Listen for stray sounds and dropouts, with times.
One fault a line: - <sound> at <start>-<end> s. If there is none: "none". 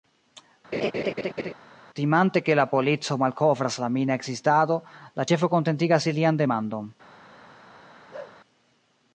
- laugh at 0.7-1.5 s
- bark at 8.1-8.4 s